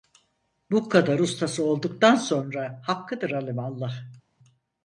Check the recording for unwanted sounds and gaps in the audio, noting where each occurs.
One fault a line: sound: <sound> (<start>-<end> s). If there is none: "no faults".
no faults